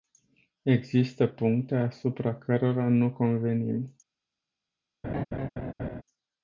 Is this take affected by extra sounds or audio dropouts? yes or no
yes